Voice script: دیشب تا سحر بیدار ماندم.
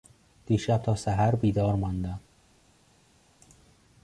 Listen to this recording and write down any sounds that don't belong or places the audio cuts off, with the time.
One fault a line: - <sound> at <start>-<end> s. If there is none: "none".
none